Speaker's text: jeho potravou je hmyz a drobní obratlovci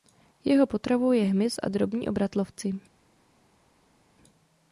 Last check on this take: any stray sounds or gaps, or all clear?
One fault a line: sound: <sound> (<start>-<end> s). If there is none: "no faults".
no faults